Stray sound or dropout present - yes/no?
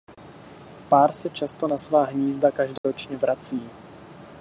yes